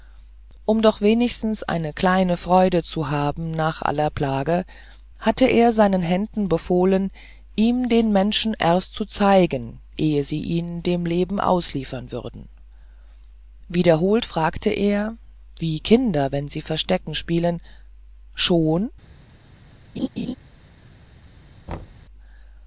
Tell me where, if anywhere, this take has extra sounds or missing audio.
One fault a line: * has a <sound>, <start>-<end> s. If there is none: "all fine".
* has a laugh, 20.0-20.3 s
* has a thud, 21.7-22.1 s